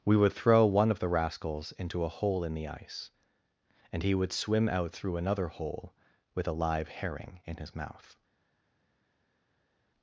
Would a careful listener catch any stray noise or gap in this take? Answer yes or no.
no